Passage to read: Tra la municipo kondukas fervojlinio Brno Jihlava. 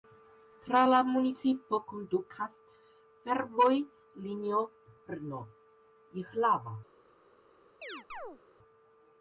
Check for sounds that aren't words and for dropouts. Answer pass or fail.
fail